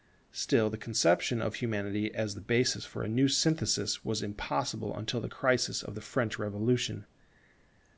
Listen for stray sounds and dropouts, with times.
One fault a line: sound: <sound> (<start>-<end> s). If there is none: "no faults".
no faults